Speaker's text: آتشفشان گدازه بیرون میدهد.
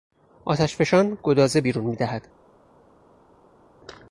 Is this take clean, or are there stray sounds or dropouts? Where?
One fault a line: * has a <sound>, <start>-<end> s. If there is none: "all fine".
all fine